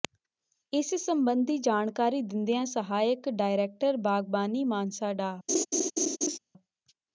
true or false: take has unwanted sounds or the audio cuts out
true